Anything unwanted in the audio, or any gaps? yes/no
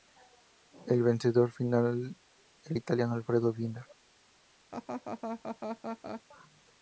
yes